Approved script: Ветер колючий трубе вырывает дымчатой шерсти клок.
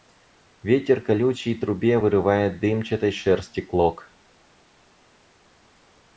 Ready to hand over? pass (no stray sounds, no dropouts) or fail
pass